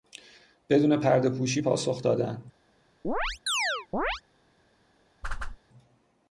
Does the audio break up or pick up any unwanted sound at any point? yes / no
yes